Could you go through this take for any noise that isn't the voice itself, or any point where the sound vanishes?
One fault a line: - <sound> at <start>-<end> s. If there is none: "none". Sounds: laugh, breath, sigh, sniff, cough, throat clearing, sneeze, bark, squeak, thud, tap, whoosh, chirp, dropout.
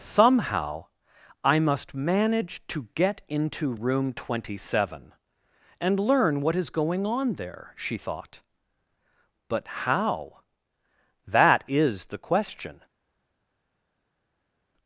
none